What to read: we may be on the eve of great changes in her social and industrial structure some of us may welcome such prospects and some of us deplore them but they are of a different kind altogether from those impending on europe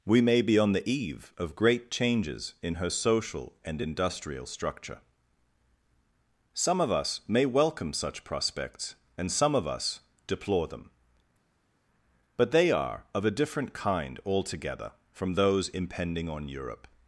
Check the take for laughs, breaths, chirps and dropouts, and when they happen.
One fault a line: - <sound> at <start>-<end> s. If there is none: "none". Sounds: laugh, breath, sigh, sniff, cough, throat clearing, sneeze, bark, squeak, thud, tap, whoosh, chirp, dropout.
none